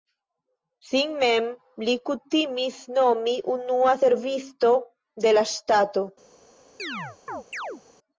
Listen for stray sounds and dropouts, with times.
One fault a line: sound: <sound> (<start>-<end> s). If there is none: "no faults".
sound: chirp (6.8-7.8 s)